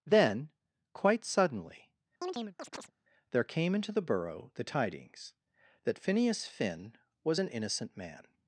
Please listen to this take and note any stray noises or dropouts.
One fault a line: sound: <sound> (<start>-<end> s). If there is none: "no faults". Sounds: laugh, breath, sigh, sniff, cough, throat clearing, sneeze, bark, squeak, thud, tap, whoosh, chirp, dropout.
sound: chirp (2.2-2.9 s)